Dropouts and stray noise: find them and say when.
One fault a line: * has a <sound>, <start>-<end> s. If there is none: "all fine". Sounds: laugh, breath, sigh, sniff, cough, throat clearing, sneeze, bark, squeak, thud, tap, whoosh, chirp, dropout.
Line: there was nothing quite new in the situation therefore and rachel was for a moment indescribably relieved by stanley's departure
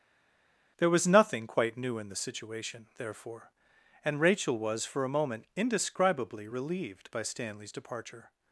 all fine